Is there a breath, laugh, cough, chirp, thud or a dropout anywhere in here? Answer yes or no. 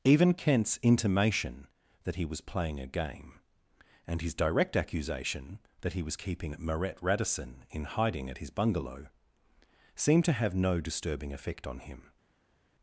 no